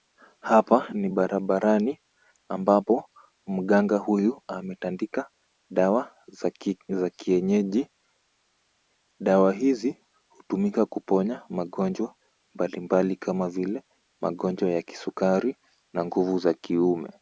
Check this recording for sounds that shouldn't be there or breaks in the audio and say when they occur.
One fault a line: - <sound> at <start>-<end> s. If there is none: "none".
none